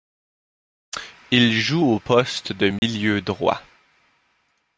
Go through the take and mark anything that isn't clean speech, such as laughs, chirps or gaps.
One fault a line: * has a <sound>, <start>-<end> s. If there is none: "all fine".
* has a dropout, 2.8-2.8 s